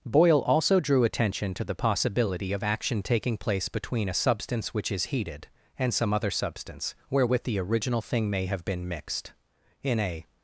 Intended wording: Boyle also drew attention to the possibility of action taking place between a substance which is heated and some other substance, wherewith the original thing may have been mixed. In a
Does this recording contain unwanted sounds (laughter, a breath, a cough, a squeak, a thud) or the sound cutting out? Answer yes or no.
no